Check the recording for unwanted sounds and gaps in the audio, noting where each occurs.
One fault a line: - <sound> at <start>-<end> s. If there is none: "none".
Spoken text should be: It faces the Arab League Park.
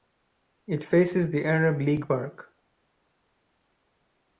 none